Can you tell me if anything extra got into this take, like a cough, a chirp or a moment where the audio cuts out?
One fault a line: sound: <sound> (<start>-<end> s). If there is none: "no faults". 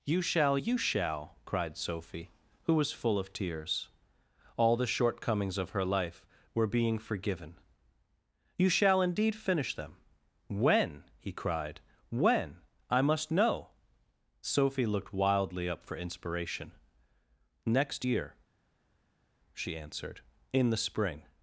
no faults